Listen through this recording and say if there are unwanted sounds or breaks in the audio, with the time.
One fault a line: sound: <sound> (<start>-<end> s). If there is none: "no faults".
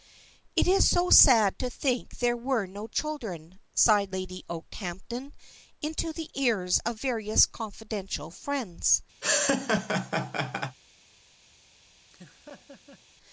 sound: laugh (9.2-10.8 s)
sound: laugh (12.1-13.0 s)